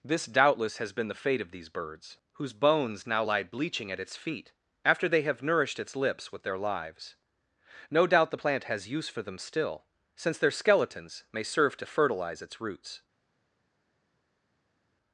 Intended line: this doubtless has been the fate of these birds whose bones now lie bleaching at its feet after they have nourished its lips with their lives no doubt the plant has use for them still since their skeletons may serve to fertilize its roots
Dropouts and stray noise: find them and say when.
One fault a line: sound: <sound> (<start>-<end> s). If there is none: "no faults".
no faults